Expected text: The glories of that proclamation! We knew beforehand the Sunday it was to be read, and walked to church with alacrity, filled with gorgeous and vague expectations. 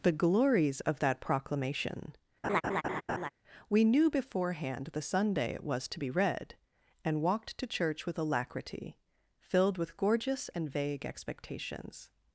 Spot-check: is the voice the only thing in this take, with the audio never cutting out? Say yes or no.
no